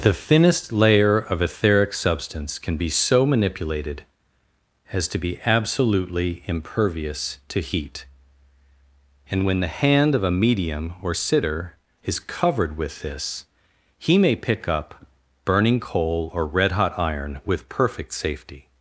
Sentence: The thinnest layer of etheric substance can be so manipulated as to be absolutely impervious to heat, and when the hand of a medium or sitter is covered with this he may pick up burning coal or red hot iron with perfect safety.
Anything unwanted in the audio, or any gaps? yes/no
no